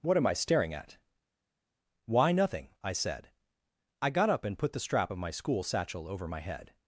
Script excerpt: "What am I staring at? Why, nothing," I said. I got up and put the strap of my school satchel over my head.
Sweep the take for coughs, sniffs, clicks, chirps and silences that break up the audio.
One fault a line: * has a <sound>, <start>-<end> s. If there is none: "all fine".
all fine